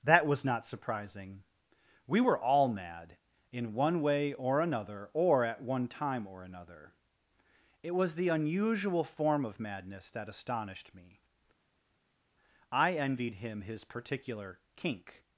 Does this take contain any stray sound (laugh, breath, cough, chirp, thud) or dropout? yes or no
no